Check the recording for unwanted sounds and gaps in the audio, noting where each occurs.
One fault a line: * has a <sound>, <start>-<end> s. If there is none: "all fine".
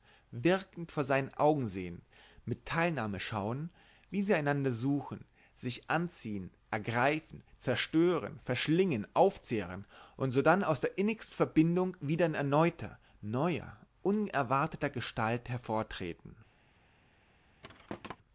* has a thud, 17.6-18.2 s